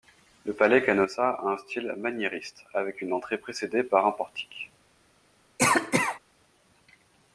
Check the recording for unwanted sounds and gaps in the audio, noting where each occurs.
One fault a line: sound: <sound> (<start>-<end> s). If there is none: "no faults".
sound: cough (5.6-6.2 s)